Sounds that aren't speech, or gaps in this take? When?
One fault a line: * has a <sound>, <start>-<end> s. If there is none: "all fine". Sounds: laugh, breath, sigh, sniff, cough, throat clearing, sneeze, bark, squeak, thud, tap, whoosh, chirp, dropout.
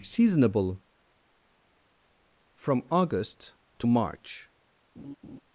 * has a laugh, 5.0-5.4 s